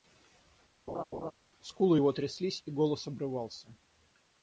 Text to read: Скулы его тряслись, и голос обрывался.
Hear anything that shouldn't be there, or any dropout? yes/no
yes